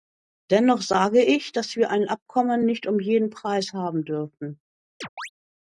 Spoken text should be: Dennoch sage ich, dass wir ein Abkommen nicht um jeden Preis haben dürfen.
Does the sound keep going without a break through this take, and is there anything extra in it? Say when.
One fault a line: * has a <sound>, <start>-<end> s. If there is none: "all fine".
* has a chirp, 5.0-5.3 s